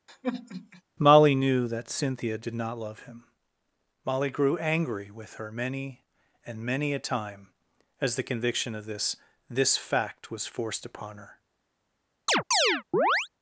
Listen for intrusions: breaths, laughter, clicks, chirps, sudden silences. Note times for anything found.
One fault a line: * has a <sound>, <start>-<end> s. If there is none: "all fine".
* has a sigh, 0.1-0.8 s
* has a chirp, 12.3-13.3 s